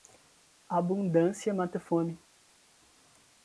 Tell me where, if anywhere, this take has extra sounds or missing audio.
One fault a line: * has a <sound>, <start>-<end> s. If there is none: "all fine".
all fine